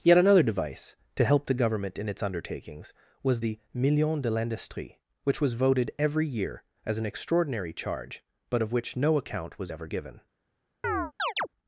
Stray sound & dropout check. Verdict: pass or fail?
fail